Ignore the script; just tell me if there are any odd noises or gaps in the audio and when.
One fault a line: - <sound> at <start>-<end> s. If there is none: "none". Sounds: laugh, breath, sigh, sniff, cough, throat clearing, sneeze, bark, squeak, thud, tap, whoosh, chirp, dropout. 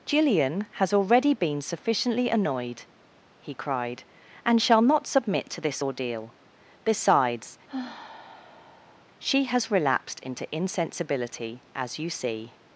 - sigh at 7.7-9.0 s